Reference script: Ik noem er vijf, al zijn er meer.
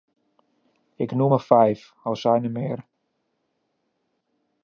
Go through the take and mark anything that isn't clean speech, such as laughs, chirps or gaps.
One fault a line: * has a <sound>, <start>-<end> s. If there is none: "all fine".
all fine